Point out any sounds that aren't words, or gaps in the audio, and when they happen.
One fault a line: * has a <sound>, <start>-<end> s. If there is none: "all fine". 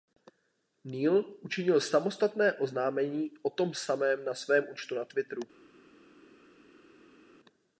all fine